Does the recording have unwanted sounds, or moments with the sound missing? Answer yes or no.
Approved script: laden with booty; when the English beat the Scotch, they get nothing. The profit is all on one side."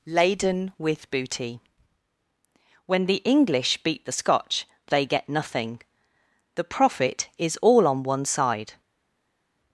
no